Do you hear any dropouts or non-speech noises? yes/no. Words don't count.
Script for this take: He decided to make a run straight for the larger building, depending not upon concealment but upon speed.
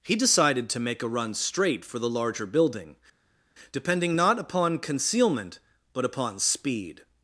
no